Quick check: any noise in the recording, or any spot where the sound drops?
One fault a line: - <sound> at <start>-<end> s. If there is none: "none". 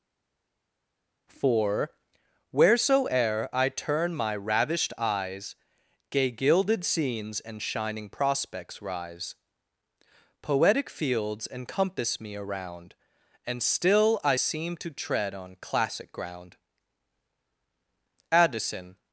none